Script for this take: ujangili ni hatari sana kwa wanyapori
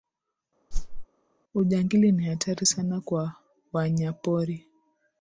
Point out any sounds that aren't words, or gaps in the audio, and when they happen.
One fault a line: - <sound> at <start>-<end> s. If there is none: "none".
- whoosh at 0.7-1.1 s